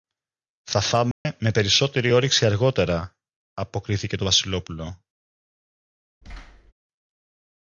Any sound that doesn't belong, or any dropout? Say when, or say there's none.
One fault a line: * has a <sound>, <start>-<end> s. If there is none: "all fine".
* has a dropout, 1.1-1.3 s
* has a thud, 6.2-6.7 s